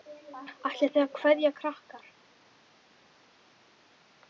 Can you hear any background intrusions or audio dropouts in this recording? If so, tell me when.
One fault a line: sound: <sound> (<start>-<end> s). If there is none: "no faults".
no faults